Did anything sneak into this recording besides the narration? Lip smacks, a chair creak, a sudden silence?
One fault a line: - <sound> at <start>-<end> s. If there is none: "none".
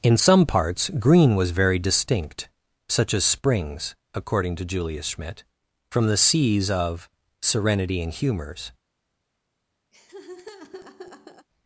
- laugh at 9.9-11.5 s